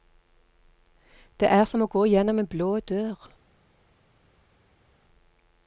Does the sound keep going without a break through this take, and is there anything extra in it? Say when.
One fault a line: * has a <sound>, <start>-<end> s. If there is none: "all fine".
all fine